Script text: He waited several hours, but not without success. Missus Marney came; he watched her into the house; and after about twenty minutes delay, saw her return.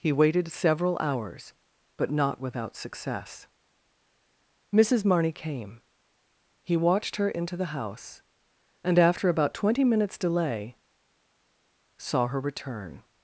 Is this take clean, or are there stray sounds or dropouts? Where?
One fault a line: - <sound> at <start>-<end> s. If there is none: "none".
none